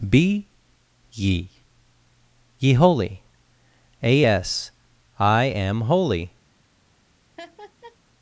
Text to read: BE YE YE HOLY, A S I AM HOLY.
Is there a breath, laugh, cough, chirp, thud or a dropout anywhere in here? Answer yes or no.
yes